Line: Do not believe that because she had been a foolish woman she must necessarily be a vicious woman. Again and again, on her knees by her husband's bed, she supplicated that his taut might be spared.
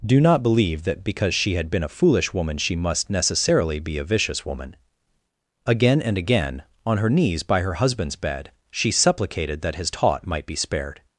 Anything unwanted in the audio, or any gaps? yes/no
no